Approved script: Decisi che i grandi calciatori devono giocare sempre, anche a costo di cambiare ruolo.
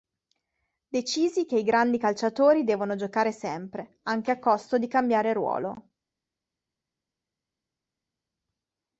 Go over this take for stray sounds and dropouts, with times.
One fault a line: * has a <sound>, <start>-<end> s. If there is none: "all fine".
all fine